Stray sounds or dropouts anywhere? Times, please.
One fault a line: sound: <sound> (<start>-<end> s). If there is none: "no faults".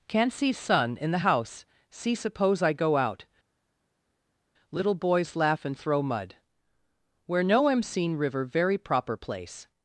no faults